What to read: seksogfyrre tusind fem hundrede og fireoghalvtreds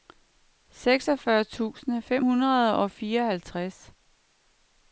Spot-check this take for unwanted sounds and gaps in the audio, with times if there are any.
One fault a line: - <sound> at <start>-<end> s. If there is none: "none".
none